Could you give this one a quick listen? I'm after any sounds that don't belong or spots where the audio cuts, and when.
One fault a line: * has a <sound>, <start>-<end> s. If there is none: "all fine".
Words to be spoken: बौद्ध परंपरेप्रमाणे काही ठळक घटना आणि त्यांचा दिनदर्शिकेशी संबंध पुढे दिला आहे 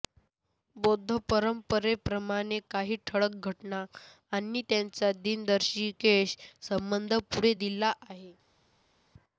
all fine